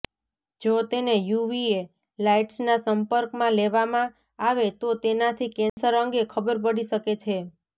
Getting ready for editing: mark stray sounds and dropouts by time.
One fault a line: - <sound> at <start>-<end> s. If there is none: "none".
- dropout at 5.7-5.8 s